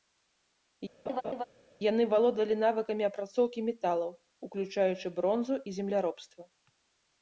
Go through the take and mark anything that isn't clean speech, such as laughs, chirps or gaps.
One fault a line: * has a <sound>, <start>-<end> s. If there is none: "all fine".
* has a laugh, 1.1-1.4 s